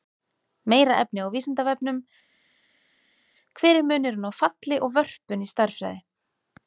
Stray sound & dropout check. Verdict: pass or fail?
pass